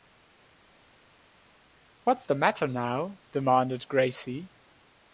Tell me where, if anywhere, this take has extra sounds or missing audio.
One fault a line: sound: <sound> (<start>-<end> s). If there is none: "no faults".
no faults